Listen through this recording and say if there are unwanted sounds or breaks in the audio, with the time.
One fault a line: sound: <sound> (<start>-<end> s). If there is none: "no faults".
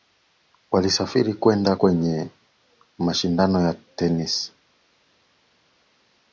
no faults